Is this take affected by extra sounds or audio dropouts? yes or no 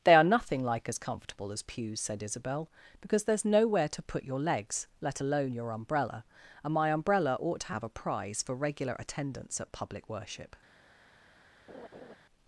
yes